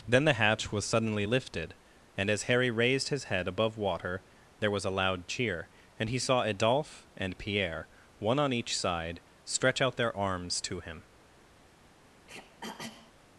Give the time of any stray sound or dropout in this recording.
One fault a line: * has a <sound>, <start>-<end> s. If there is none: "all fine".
* has a throat clearing, 12.3-13.1 s